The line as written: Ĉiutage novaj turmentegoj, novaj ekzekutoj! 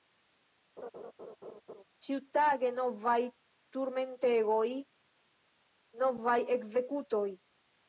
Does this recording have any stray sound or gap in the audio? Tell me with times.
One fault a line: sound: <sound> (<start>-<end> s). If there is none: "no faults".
sound: laugh (0.8-1.8 s)